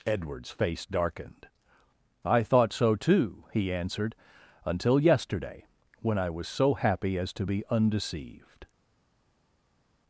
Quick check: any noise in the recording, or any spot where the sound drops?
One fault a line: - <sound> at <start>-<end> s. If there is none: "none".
none